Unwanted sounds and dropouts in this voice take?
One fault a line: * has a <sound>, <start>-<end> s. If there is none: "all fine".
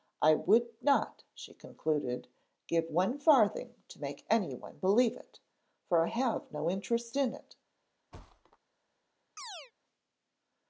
* has a thud, 8.1-8.6 s
* has a chirp, 9.4-9.7 s